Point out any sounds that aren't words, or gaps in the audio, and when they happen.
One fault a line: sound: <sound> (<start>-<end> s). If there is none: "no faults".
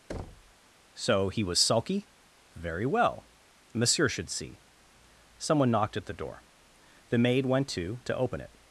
sound: thud (0.1-0.5 s)